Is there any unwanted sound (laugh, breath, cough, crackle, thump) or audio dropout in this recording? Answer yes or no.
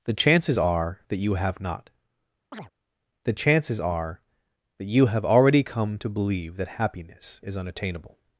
yes